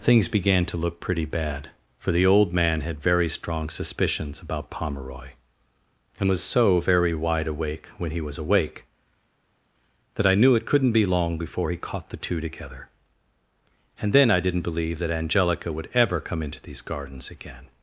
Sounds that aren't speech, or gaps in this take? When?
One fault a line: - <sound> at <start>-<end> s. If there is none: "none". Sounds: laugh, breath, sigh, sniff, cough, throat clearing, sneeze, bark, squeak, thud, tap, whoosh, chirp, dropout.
none